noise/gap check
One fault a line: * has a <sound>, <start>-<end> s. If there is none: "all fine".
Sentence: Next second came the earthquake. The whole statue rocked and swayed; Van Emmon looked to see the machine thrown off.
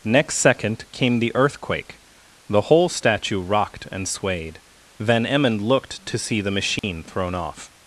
* has a dropout, 6.8-6.8 s